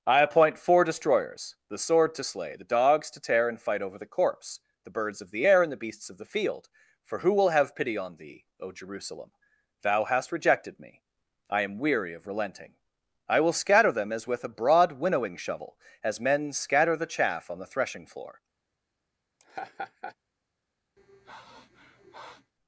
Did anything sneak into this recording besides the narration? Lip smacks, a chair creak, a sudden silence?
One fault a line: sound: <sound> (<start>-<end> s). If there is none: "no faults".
sound: laugh (19.4-20.2 s)
sound: sniff (21.0-22.5 s)